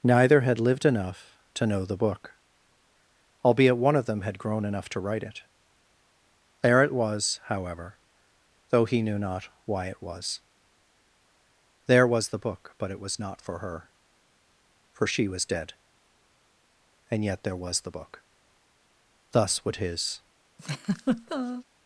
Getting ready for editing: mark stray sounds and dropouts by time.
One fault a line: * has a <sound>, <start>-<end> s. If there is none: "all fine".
* has a laugh, 20.6-21.6 s